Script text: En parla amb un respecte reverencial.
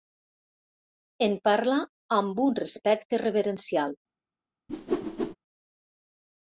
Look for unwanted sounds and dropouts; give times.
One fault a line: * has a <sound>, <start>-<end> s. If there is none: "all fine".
* has a whoosh, 4.7-5.4 s